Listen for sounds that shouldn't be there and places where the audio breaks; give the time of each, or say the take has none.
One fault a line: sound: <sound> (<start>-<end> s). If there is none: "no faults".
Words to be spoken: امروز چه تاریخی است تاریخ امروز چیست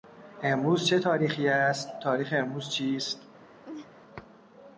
sound: laugh (3.6-3.9 s)